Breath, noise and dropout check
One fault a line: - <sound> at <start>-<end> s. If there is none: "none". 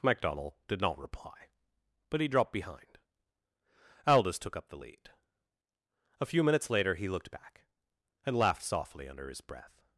none